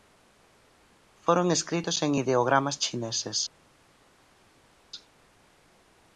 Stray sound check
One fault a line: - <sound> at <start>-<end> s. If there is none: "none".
none